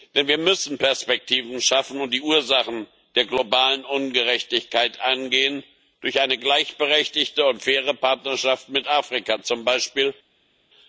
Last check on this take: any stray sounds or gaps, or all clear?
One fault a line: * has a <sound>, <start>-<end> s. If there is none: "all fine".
all fine